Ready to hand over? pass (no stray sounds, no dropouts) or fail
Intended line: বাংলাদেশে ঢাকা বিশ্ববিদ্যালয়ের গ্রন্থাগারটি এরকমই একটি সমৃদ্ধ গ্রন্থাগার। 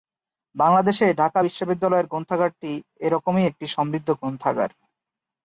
pass